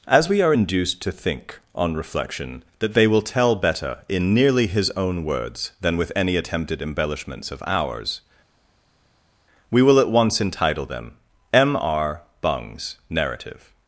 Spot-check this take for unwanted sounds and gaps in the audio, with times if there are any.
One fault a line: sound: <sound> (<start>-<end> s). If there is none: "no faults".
no faults